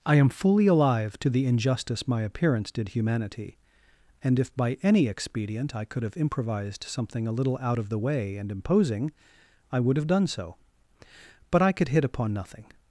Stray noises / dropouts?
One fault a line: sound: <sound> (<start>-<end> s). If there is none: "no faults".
no faults